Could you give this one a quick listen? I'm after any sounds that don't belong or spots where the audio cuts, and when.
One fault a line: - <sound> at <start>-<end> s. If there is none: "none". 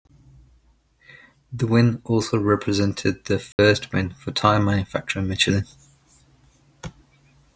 - dropout at 3.5-3.6 s